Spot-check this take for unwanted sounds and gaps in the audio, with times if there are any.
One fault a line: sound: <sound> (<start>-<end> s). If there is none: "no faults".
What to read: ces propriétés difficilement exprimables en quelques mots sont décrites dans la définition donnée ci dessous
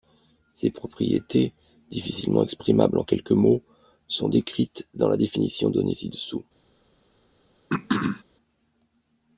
sound: throat clearing (7.7-8.2 s)